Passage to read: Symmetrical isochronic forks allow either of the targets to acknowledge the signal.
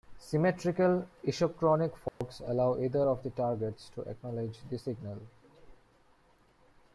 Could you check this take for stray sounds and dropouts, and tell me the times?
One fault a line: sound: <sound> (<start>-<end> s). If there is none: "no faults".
sound: dropout (2.1-2.2 s)